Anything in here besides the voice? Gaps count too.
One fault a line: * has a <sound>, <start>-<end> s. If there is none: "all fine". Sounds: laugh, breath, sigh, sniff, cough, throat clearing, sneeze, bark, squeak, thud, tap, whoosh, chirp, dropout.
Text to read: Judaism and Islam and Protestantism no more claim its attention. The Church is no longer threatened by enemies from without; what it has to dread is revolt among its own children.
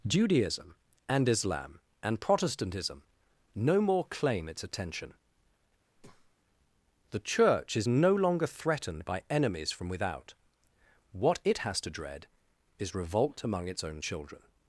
* has a breath, 5.9-6.4 s